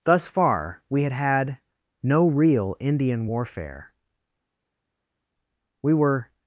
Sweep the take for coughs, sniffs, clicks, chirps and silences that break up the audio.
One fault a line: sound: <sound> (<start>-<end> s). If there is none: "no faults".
no faults